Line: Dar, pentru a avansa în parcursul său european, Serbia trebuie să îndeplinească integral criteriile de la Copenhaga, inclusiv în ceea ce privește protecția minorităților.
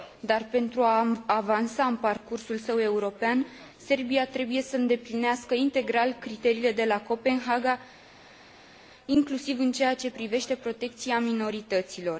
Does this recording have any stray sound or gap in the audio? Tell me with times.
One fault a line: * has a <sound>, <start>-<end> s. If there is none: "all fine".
all fine